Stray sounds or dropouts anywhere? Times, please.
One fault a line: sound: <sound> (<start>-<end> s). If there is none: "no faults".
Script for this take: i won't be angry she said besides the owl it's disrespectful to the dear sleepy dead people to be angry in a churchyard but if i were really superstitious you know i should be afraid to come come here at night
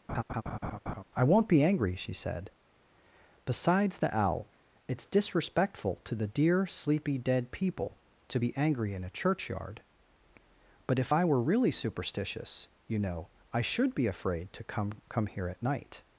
sound: laugh (0.1-1.0 s)